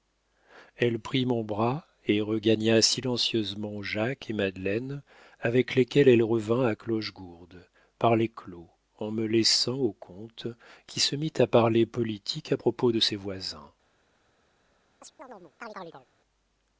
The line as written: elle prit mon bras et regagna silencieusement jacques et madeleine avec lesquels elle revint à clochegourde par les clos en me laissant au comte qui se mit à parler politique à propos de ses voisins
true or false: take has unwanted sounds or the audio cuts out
true